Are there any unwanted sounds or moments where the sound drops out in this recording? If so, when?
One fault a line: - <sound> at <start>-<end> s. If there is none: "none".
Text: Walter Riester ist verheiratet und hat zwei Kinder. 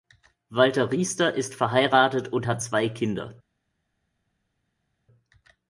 none